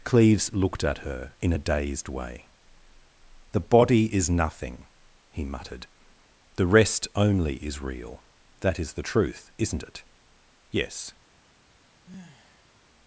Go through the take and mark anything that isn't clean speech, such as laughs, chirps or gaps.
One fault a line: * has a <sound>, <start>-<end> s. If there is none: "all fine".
* has a sigh, 12.1-12.7 s